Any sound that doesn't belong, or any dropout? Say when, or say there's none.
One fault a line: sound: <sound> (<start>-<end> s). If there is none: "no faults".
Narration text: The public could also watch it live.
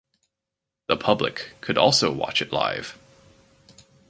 no faults